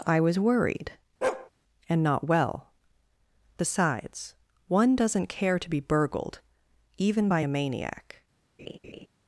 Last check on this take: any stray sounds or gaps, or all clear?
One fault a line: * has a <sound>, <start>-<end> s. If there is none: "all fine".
* has a bark, 1.2-1.5 s
* has a laugh, 8.6-9.1 s